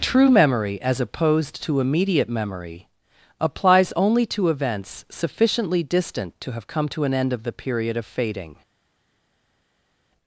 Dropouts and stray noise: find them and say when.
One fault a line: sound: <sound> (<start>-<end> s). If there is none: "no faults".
no faults